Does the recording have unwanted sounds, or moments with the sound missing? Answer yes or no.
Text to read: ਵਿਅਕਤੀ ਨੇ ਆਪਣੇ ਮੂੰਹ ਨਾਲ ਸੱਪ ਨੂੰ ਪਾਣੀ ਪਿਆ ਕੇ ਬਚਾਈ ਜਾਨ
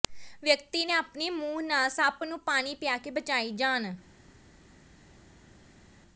no